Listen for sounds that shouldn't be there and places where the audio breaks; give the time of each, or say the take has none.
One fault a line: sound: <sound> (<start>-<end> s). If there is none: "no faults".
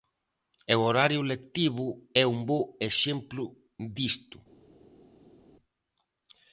no faults